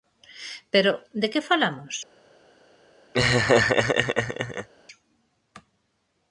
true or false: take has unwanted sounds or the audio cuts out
true